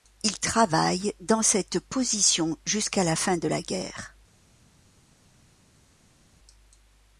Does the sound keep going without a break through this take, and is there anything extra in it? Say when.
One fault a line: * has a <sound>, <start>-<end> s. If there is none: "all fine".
all fine